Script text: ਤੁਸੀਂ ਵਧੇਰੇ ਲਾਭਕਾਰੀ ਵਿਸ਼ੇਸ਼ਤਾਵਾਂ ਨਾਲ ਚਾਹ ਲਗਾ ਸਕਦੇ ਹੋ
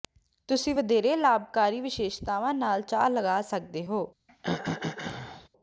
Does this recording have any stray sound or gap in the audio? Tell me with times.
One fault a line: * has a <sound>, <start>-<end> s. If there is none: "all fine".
* has a throat clearing, 4.3-5.5 s